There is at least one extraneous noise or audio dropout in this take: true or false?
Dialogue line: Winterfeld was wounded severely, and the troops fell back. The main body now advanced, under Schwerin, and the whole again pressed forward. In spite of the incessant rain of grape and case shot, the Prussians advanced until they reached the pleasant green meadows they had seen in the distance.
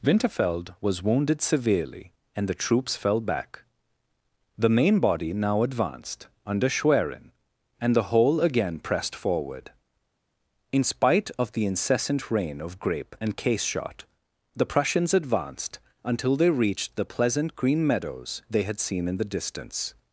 false